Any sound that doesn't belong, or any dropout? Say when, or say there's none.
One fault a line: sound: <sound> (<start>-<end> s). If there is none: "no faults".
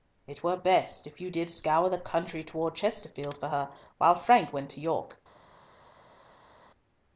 no faults